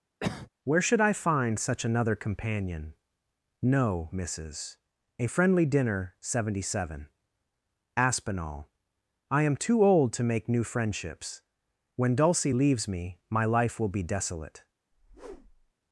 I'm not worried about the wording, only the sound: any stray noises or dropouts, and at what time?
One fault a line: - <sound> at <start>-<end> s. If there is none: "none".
- cough at 0.2-0.5 s
- whoosh at 14.9-15.7 s